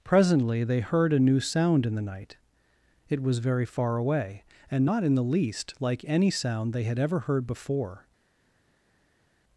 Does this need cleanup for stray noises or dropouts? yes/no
no